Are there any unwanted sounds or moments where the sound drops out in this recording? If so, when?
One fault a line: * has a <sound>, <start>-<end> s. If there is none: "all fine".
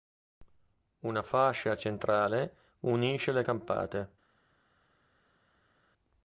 all fine